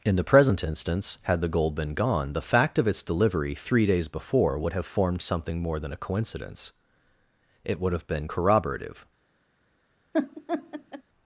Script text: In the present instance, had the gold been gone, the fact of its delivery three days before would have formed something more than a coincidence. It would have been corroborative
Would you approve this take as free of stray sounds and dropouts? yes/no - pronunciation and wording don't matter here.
no